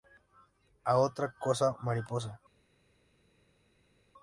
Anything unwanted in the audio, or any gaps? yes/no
no